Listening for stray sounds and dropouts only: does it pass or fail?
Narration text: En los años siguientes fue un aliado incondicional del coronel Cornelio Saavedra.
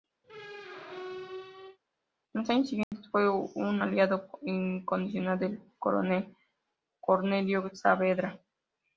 fail